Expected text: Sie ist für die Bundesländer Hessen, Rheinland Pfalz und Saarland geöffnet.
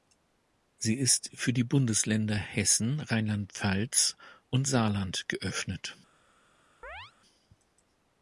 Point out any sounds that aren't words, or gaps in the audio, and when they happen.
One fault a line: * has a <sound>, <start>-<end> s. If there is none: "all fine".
* has a chirp, 6.8-7.1 s